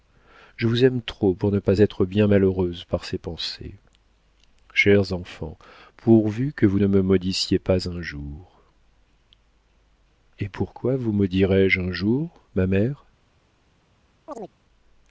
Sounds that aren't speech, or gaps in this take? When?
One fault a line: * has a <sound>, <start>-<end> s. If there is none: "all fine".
* has a chirp, 14.3-14.5 s